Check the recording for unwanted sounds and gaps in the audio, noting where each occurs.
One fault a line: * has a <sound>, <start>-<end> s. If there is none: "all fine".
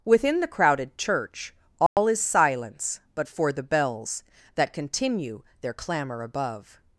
* has a dropout, 1.9-2.0 s